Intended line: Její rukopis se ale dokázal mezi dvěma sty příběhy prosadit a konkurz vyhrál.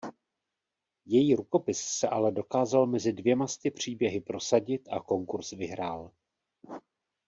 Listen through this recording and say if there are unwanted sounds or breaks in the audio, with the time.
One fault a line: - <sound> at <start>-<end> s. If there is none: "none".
none